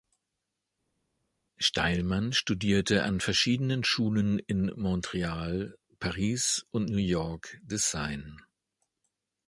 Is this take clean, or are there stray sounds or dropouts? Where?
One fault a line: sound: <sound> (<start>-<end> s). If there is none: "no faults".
no faults